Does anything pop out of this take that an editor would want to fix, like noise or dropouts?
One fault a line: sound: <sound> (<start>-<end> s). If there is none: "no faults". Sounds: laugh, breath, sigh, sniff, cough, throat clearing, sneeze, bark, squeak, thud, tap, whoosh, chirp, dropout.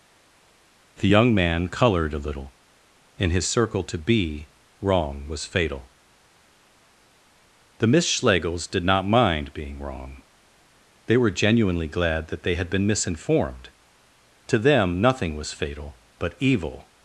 no faults